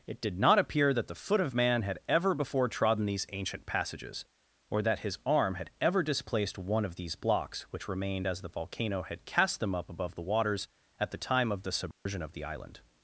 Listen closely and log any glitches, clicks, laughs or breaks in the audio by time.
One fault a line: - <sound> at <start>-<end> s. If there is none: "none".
- dropout at 11.9-12.1 s